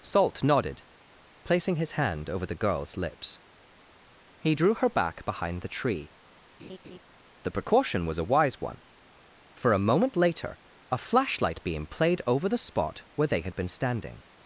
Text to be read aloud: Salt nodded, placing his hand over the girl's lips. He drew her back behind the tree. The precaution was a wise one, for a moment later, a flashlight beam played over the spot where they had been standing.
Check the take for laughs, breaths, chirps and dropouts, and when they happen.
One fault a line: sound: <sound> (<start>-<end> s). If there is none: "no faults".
sound: laugh (6.6-7.0 s)